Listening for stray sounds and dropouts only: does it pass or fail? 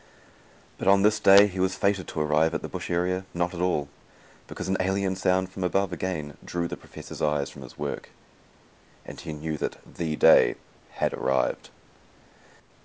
pass